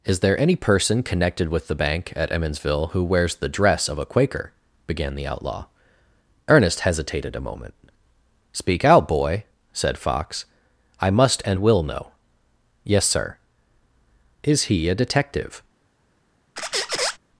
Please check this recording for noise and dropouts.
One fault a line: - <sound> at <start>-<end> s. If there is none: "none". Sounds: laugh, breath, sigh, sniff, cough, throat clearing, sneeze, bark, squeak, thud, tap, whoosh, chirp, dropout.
- squeak at 16.6-17.2 s